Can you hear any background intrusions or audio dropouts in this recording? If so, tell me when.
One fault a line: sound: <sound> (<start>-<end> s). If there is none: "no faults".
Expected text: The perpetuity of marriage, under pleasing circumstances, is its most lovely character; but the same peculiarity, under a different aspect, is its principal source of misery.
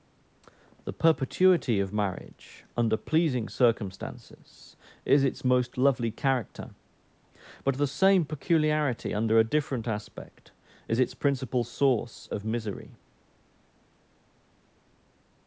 no faults